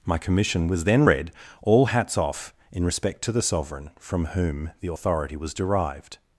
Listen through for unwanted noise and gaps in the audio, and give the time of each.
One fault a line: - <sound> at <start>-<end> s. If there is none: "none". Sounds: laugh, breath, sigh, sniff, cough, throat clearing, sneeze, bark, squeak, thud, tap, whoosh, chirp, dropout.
none